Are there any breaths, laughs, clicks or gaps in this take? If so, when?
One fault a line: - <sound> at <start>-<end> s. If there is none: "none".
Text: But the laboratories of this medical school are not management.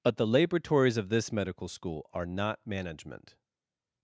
none